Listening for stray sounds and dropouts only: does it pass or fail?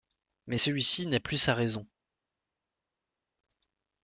pass